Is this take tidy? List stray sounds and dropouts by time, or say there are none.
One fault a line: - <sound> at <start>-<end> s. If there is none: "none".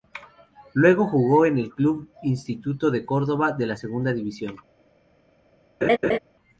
- laugh at 5.8-6.2 s